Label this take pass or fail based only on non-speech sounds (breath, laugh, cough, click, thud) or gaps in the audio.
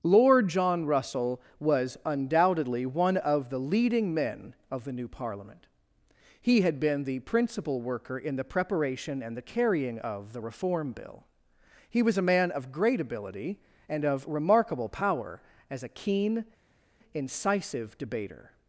pass